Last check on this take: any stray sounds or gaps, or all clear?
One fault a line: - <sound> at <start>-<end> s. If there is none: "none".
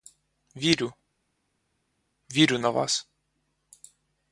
none